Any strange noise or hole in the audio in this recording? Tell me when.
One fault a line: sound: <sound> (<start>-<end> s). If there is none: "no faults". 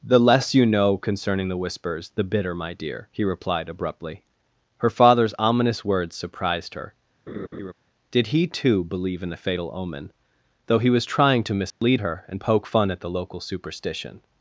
sound: laugh (7.3-7.7 s)
sound: dropout (11.7-11.8 s)